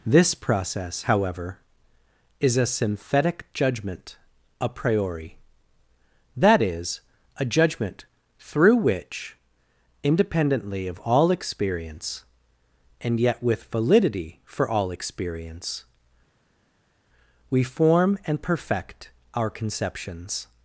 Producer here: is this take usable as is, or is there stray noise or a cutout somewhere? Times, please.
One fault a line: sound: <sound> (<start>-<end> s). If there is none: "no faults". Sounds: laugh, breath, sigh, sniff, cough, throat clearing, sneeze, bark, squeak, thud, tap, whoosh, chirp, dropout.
no faults